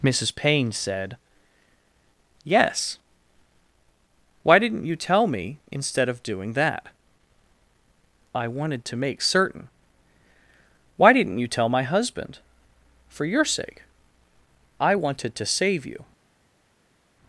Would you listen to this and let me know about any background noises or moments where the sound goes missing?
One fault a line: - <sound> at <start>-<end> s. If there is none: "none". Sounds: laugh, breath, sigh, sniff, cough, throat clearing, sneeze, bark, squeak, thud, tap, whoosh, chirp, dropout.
none